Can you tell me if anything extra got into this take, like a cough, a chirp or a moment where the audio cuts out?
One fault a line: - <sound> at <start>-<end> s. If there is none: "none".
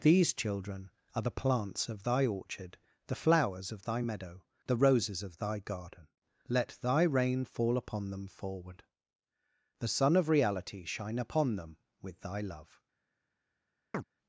- chirp at 13.9-14.0 s